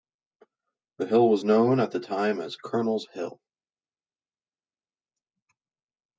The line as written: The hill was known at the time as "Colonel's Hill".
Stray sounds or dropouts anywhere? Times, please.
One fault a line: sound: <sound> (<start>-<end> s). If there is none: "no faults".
no faults